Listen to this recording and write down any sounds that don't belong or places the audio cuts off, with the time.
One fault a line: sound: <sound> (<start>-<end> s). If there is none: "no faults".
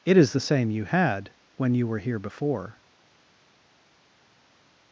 no faults